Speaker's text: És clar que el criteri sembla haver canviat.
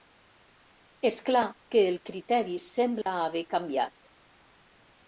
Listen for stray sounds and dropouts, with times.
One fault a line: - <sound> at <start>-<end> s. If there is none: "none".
- dropout at 3.0-3.1 s